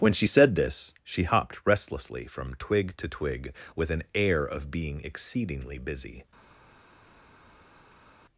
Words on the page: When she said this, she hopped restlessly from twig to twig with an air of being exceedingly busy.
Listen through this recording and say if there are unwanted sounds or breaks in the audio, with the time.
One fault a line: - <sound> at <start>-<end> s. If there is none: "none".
none